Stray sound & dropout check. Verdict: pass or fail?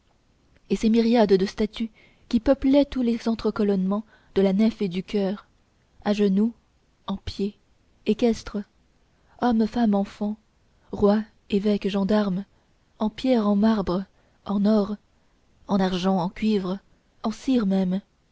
pass